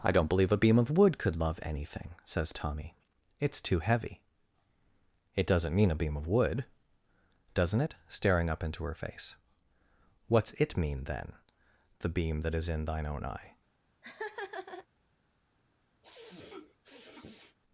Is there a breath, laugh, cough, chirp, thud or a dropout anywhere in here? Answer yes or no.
yes